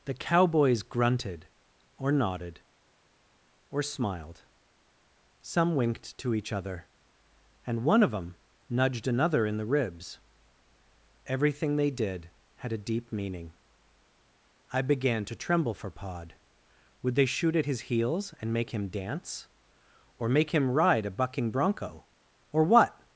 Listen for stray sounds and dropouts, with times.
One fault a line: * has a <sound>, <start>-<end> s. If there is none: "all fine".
all fine